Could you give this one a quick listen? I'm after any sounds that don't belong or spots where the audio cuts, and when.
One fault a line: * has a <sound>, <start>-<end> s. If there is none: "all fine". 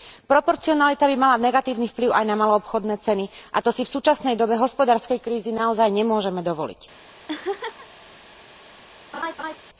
* has a laugh, 7.3-7.9 s
* has a laugh, 9.1-9.6 s